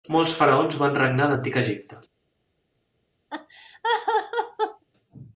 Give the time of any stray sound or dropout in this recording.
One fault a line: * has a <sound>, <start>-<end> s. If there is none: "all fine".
* has a laugh, 3.3-4.9 s